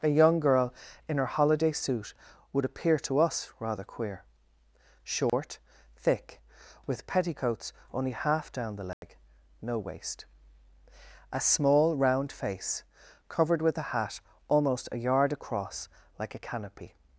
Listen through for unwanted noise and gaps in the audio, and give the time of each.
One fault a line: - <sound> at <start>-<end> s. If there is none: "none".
- dropout at 5.3-5.3 s
- dropout at 8.9-9.0 s